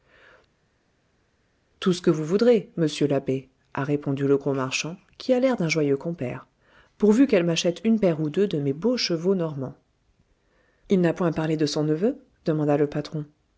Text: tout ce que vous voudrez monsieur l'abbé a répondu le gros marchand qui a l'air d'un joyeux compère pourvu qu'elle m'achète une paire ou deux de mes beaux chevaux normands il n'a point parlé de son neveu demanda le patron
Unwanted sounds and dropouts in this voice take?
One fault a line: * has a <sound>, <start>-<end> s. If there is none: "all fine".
all fine